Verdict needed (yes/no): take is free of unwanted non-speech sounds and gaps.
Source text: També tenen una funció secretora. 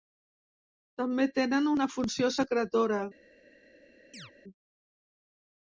no